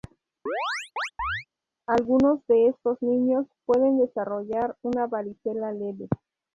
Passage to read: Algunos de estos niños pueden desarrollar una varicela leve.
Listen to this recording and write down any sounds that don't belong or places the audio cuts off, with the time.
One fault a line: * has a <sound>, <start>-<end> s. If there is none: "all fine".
* has a chirp, 0.5-1.5 s